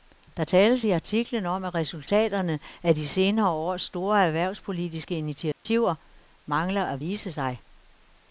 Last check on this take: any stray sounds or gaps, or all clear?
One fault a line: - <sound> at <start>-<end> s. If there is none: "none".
- dropout at 5.5-5.7 s